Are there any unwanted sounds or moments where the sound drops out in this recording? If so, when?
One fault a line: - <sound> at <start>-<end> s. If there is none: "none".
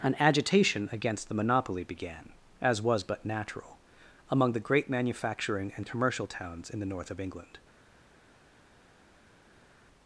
none